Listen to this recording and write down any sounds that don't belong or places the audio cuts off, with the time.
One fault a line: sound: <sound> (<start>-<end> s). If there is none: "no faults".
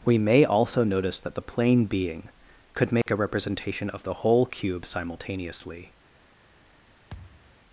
sound: dropout (3.0-3.1 s)
sound: thud (7.1-7.6 s)